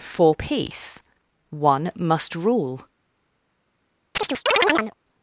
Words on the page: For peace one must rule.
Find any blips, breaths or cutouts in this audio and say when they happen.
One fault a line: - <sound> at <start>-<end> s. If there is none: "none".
- chirp at 4.1-4.9 s